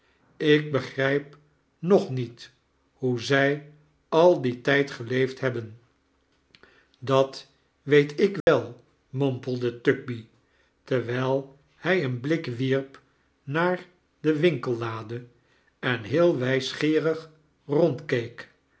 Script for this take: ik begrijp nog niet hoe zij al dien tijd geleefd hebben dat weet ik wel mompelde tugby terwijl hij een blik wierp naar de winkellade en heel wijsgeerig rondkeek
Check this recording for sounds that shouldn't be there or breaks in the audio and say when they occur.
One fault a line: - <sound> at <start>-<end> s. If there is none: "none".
- dropout at 8.4-8.5 s